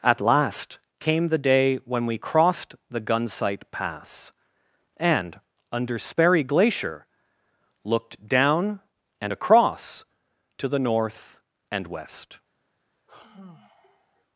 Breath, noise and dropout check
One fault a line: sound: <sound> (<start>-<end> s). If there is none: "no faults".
sound: sigh (13.1-14.2 s)